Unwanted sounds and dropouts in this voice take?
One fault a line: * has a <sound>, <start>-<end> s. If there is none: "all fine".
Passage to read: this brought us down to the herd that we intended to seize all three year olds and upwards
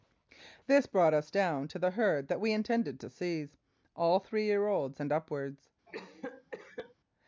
* has a cough, 5.9-6.9 s